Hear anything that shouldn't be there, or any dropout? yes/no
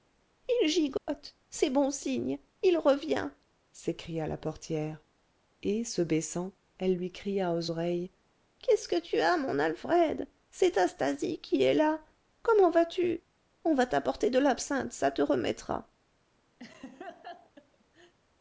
yes